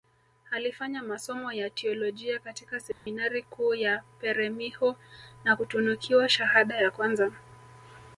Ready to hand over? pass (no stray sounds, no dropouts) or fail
fail